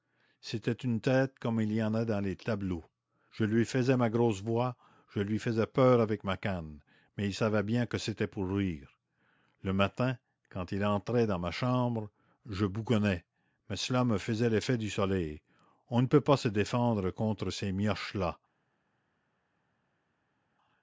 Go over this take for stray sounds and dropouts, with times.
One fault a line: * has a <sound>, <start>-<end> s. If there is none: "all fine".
all fine